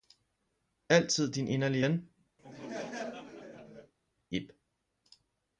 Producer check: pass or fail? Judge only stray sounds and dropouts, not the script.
fail